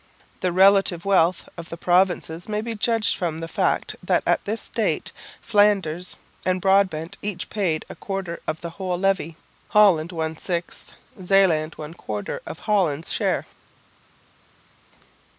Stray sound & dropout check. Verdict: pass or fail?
pass